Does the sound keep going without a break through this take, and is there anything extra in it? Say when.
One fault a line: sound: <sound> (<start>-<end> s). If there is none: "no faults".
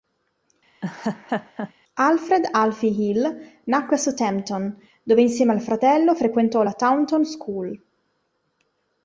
sound: laugh (0.8-1.7 s)